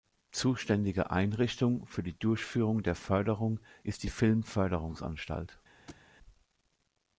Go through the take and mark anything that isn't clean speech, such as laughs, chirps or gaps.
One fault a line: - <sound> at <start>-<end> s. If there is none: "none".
- thud at 5.9-6.1 s